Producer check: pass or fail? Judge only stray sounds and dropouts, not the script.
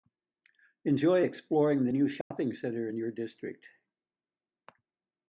fail